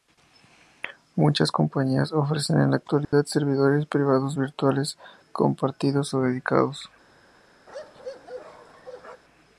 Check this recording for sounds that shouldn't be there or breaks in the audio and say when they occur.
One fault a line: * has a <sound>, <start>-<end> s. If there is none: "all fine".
* has a dropout, 3.0-3.1 s
* has a bark, 7.7-9.2 s